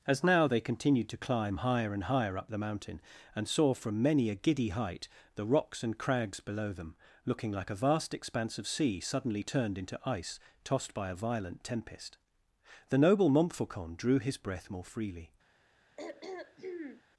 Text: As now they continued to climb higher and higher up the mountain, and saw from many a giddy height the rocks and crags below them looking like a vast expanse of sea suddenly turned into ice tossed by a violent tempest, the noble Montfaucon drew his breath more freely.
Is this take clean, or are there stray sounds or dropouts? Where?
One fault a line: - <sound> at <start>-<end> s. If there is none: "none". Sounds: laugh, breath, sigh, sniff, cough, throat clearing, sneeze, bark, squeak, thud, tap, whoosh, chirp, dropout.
- throat clearing at 16.0-17.0 s